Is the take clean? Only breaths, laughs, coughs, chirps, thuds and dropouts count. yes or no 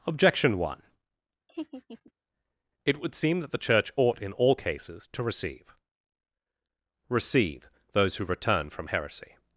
no